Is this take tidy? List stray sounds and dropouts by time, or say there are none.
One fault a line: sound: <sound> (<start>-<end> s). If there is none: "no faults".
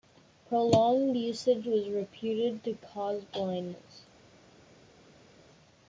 no faults